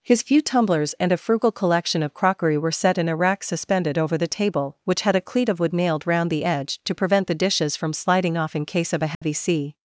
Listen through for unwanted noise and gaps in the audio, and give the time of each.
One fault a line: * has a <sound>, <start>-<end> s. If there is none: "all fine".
* has a dropout, 9.1-9.2 s